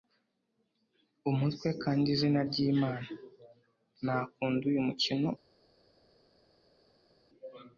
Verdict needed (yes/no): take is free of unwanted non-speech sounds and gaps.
yes